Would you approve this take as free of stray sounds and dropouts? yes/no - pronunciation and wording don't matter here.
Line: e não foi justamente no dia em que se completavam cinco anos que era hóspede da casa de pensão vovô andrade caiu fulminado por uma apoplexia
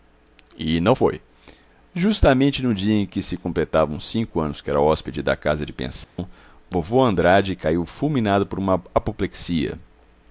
no